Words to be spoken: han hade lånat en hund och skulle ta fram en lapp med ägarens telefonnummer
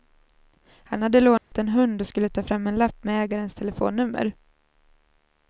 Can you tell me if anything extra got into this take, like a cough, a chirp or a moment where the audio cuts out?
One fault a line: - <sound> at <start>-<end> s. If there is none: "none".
- dropout at 1.4-1.5 s